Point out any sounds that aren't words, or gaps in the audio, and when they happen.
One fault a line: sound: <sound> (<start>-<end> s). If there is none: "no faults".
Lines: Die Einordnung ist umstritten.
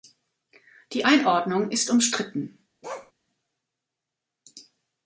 sound: bark (2.8-3.1 s)